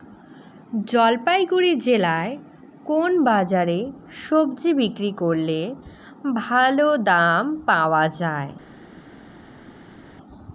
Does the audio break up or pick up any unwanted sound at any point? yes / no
no